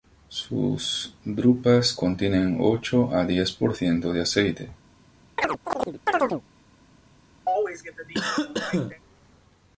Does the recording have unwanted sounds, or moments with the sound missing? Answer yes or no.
yes